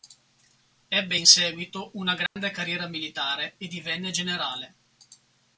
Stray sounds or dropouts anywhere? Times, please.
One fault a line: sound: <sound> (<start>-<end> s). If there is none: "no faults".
sound: dropout (2.3-2.4 s)